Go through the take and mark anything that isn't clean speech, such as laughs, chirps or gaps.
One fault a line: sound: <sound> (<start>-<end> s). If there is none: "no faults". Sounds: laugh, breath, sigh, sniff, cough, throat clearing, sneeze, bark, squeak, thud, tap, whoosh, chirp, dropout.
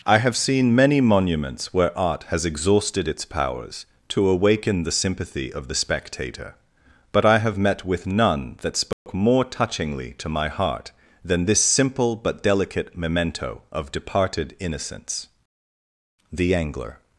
sound: dropout (8.9-9.1 s)